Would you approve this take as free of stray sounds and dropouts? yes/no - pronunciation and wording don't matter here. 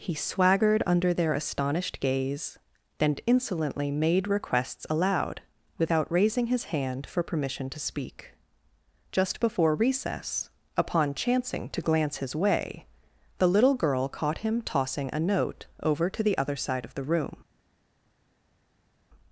yes